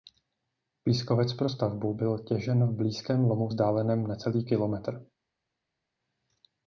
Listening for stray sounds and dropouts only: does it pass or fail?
pass